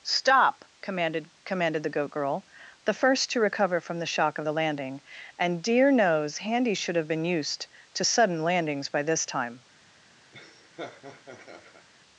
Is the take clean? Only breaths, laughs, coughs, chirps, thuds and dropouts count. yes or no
no